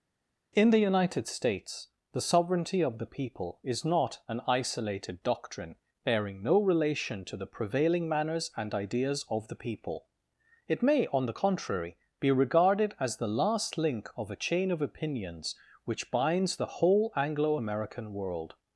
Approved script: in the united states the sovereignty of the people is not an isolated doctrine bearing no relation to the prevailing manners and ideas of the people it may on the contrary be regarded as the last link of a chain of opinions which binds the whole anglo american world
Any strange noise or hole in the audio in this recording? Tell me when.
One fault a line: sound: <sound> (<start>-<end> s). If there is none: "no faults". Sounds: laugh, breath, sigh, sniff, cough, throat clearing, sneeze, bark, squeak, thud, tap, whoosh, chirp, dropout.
no faults